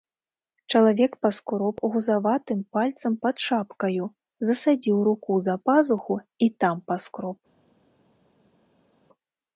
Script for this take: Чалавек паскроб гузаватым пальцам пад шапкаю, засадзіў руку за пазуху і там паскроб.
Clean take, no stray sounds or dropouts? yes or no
yes